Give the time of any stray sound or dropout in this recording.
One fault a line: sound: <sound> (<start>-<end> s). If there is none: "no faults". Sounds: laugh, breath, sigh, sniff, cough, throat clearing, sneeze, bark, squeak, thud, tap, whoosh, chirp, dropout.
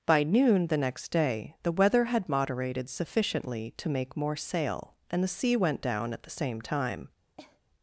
sound: cough (7.4-7.6 s)